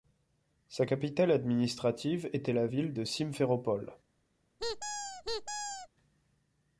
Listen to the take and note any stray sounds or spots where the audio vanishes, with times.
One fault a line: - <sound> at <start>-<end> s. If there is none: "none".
- squeak at 4.6-5.9 s